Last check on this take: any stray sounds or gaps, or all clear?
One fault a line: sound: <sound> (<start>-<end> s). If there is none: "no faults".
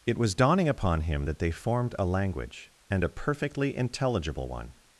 no faults